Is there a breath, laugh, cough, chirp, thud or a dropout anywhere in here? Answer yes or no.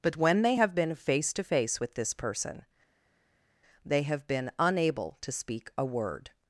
no